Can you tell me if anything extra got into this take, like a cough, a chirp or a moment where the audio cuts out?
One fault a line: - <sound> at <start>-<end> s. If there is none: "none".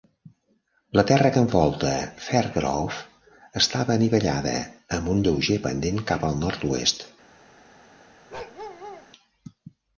- bark at 8.3-9.1 s